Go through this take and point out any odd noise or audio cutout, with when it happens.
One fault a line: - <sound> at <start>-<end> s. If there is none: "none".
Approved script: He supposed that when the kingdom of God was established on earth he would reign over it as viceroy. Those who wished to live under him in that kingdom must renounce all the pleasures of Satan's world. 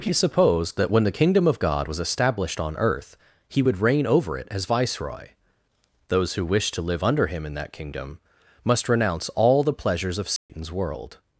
- dropout at 10.4-10.5 s